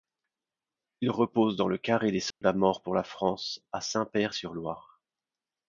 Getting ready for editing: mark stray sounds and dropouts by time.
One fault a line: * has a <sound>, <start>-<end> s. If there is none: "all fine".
* has a dropout, 2.3-2.4 s